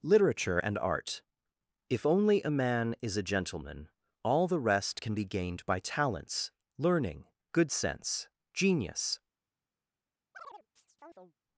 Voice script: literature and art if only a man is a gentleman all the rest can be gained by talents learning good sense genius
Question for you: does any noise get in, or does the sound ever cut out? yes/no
yes